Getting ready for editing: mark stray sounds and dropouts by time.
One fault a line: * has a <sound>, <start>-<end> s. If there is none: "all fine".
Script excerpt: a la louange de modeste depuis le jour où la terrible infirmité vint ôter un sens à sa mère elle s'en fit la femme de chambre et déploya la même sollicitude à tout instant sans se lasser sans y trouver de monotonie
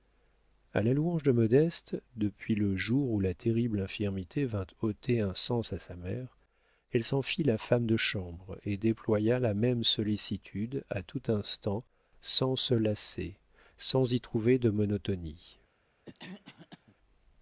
* has a cough, 16.0-17.0 s